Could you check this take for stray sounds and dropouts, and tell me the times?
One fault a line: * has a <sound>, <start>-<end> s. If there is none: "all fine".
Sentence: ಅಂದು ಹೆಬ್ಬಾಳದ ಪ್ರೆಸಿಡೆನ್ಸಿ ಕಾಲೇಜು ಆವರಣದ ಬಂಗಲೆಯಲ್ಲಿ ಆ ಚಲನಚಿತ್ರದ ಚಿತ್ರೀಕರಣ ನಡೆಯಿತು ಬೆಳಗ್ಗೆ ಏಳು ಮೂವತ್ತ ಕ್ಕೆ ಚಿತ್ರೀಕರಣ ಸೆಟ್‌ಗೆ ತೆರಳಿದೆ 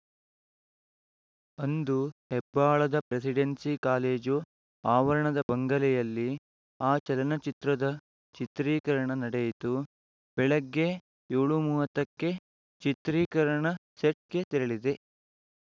all fine